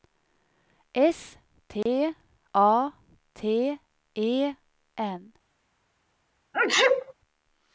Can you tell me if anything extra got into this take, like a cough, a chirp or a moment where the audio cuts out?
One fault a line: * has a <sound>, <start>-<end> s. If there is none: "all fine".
* has a dropout, 1.8-1.9 s
* has a sneeze, 6.5-7.1 s